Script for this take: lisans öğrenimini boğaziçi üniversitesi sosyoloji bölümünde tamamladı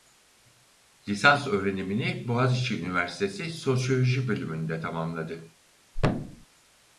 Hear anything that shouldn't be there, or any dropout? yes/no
yes